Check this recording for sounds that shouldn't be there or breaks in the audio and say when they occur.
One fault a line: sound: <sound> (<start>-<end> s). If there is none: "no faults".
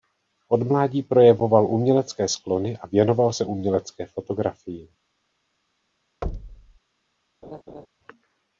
sound: thud (6.2-6.8 s)
sound: laugh (7.4-7.9 s)